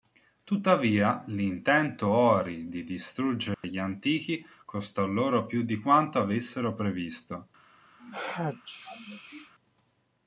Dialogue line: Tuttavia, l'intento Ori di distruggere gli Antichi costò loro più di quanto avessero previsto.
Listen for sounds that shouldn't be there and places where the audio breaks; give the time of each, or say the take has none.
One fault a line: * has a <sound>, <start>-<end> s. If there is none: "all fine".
* has a dropout, 3.5-3.6 s
* has a sneeze, 8.0-9.5 s